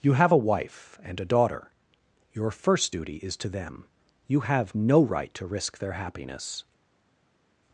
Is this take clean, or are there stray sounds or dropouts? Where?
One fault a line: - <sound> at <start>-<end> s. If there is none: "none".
none